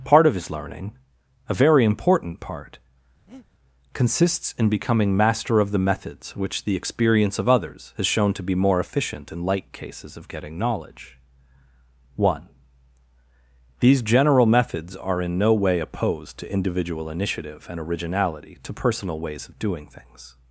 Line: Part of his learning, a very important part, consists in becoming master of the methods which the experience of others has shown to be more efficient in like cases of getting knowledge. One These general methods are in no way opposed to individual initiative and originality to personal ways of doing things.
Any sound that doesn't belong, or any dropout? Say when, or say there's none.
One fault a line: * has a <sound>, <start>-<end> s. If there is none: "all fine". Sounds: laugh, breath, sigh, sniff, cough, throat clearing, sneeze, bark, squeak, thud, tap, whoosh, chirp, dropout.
* has a breath, 3.3-3.5 s